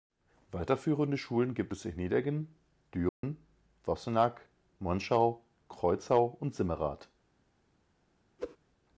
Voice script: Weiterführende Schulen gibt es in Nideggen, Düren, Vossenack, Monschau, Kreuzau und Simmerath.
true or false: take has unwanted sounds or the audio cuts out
true